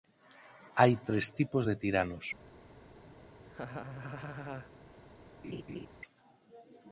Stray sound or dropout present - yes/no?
yes